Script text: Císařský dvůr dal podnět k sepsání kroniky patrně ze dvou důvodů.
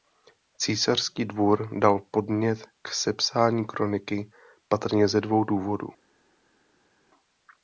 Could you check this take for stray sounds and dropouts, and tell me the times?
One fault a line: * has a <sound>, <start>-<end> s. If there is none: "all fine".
all fine